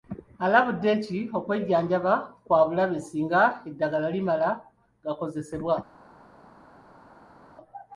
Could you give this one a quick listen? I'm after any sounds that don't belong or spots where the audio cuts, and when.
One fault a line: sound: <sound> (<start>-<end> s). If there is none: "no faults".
no faults